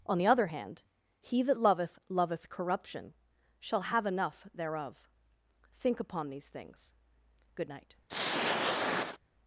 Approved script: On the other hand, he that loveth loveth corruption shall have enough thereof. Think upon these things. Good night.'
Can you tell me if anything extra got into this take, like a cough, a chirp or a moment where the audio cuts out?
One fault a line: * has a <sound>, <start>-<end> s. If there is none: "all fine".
* has a throat clearing, 8.1-9.2 s